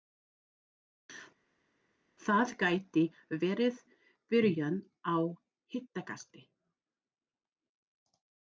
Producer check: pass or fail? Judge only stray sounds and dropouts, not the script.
pass